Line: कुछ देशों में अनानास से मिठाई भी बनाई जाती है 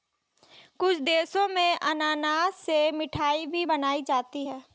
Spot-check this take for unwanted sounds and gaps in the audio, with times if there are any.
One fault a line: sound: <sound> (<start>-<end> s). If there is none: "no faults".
no faults